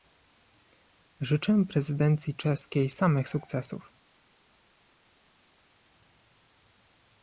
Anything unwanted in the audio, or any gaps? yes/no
no